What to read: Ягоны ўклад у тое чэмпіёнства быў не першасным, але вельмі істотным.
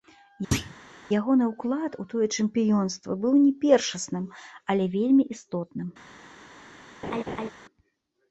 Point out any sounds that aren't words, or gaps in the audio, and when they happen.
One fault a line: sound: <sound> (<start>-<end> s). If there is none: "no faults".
sound: thud (0.5-0.8 s)
sound: laugh (7.0-7.5 s)